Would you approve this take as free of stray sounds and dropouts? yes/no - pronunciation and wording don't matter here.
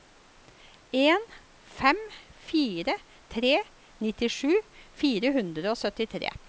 yes